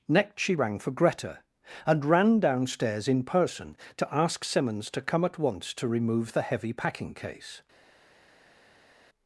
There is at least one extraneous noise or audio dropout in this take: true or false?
false